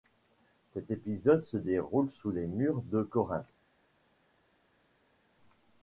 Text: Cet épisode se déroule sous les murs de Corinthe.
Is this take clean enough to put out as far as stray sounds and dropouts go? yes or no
yes